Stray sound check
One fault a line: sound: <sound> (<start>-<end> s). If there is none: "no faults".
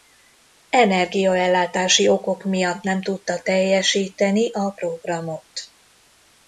no faults